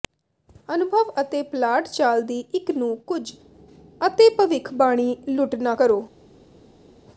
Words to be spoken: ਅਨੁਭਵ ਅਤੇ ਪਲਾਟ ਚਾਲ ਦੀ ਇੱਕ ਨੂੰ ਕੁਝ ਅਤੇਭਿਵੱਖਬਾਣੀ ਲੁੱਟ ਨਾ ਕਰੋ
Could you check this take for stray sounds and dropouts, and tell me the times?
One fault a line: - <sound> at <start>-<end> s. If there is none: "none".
none